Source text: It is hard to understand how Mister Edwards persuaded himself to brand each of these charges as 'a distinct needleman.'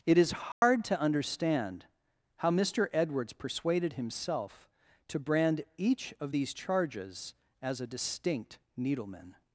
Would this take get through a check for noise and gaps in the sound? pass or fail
fail